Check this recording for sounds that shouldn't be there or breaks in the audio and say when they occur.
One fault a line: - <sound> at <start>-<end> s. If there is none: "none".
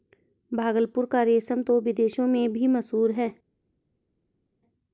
none